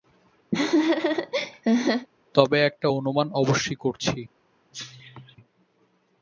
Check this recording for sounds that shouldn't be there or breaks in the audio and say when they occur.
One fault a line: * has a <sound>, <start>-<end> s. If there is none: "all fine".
* has a laugh, 0.5-2.1 s
* has a cough, 4.7-5.4 s